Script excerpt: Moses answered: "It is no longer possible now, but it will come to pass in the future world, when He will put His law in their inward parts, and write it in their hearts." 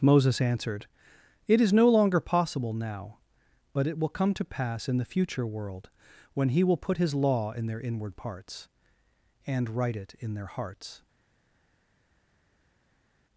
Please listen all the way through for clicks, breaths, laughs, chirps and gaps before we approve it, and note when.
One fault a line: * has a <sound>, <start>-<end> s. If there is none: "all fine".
all fine